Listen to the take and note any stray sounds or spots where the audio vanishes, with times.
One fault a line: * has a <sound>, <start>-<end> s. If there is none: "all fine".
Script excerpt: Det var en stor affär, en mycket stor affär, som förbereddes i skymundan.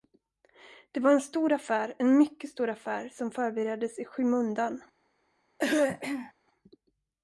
* has a throat clearing, 5.6-6.3 s